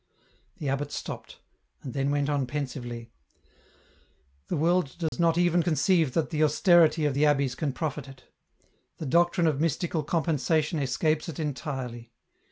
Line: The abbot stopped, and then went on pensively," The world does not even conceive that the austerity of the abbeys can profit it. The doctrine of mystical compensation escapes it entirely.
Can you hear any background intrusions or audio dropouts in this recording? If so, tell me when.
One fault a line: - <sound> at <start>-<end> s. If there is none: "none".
- dropout at 5.1-5.1 s